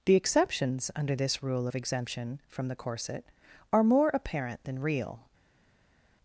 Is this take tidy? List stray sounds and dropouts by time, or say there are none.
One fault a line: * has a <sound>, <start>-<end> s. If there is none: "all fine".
all fine